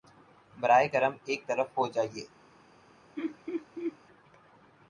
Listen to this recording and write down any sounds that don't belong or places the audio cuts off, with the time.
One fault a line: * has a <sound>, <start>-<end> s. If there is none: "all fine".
* has a laugh, 3.2-4.0 s